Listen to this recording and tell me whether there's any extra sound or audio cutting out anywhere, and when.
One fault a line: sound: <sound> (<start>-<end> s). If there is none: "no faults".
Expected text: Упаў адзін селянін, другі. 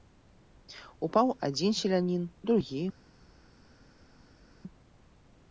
no faults